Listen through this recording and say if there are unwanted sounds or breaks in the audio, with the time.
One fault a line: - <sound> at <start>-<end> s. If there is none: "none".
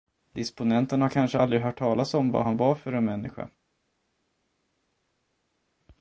none